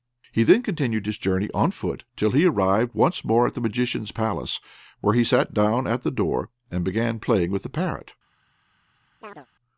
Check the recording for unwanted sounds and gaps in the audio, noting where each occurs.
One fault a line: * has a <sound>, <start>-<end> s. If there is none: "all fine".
* has a chirp, 9.2-9.5 s